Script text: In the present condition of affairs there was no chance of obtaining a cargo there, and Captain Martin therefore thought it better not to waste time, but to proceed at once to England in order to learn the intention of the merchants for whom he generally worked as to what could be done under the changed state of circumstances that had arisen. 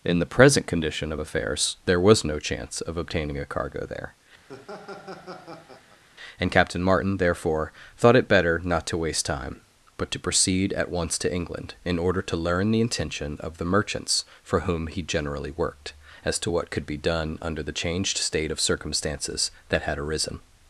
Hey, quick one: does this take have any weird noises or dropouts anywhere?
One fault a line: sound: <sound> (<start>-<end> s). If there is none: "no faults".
sound: laugh (4.5-6.0 s)